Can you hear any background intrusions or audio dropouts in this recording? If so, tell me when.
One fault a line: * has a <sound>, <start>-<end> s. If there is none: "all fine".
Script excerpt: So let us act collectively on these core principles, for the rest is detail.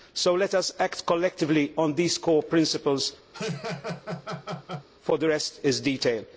* has a laugh, 3.3-4.9 s